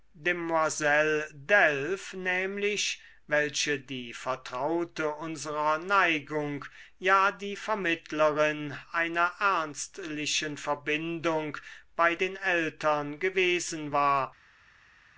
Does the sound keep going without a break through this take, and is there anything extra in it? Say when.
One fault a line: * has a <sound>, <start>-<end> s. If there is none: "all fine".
all fine